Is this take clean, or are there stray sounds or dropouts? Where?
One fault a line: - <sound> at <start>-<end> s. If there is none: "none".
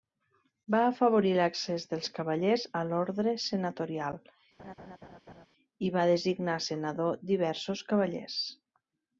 - laugh at 4.6-5.5 s